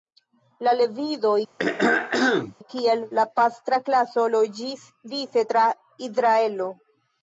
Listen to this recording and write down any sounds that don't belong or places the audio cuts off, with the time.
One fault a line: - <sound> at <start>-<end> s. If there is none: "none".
- throat clearing at 1.6-2.5 s